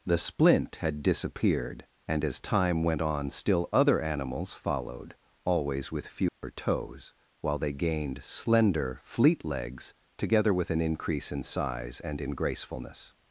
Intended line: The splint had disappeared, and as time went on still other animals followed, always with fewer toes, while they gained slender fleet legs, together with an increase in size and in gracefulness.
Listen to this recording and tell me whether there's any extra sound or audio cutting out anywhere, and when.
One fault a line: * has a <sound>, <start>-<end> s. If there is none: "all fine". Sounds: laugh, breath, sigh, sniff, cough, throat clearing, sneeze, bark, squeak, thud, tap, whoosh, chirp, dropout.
* has a dropout, 6.3-6.4 s